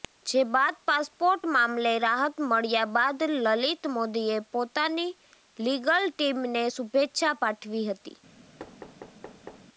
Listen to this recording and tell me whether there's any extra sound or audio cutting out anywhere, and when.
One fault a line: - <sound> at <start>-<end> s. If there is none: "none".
- thud at 8.6-9.7 s